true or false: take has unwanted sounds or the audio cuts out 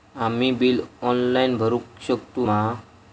false